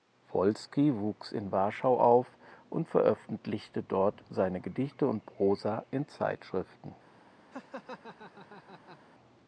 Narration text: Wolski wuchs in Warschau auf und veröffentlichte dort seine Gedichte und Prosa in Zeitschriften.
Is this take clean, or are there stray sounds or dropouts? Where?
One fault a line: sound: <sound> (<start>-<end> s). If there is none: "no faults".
sound: laugh (7.5-9.0 s)